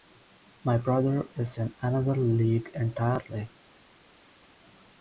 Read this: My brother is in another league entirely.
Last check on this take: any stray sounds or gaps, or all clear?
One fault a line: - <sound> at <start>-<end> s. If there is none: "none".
none